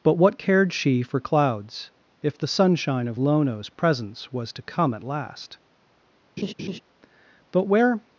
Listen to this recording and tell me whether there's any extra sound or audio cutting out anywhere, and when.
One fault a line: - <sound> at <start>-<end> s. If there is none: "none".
- laugh at 6.4-6.8 s